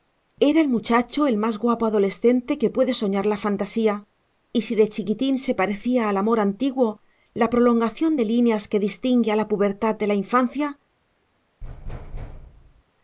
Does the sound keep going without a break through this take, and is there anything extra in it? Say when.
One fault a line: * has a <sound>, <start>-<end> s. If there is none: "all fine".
* has a thud, 11.6-12.8 s